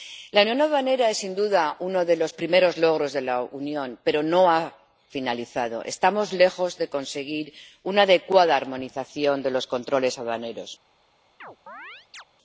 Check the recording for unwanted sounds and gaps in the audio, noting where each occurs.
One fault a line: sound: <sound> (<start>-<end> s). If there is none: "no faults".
sound: chirp (11.4-12.2 s)